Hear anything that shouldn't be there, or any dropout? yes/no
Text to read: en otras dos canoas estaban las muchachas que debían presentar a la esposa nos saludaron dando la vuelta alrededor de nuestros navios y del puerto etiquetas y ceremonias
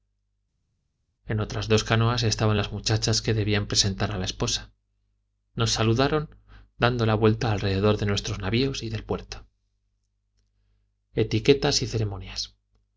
no